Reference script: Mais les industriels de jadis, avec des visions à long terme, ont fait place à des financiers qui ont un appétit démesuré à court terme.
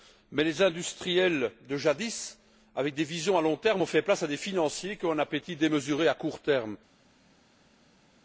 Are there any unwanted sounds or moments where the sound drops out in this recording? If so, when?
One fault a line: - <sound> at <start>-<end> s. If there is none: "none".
none